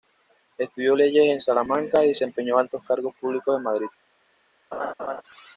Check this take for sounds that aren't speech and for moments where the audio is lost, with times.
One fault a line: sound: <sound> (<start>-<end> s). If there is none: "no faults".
sound: laugh (4.7-5.2 s)